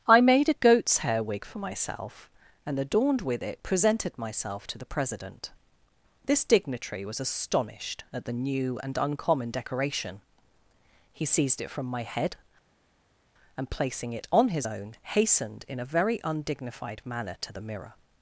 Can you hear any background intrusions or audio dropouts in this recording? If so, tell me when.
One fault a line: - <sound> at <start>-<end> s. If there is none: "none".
none